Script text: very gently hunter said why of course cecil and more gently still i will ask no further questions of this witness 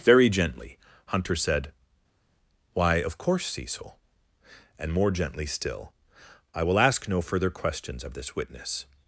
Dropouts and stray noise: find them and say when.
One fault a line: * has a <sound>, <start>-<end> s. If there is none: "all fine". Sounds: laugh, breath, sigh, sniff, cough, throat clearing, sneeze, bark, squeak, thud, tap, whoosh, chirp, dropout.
all fine